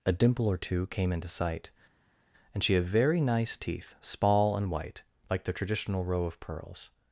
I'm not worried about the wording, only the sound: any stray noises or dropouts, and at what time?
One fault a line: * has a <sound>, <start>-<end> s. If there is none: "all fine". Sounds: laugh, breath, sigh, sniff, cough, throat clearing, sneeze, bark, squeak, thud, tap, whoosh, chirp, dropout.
all fine